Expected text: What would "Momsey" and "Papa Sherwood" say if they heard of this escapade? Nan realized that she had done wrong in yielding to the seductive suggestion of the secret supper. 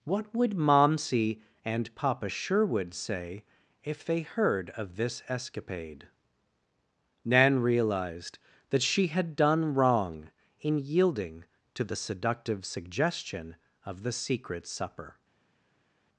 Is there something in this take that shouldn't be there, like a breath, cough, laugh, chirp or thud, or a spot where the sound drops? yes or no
no